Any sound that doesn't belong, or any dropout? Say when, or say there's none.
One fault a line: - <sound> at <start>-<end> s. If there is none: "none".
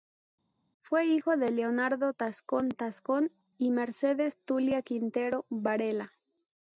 none